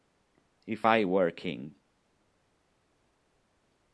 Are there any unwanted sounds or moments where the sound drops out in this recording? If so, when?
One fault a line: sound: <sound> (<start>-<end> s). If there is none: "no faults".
no faults